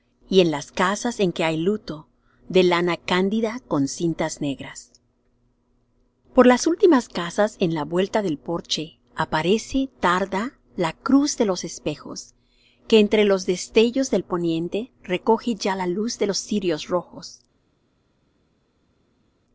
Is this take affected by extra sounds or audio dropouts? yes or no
no